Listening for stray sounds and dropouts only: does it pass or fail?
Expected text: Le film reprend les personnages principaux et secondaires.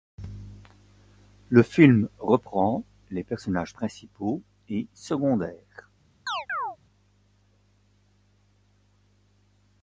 fail